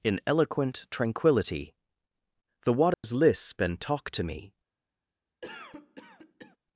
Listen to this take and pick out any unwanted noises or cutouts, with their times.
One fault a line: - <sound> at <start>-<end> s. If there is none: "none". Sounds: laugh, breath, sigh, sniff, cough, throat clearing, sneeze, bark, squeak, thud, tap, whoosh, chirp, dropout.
- dropout at 2.9-3.0 s
- cough at 5.4-6.6 s